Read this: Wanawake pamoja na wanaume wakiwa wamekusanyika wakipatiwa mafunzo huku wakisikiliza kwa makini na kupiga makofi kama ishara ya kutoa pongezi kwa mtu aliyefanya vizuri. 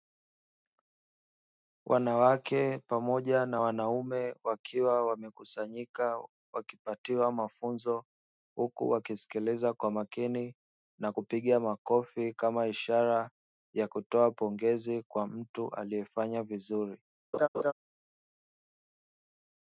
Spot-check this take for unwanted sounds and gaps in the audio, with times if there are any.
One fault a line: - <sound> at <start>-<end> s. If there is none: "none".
- laugh at 17.3-17.7 s